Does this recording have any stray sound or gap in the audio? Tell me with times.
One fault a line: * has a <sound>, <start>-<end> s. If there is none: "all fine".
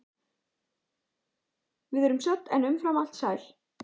all fine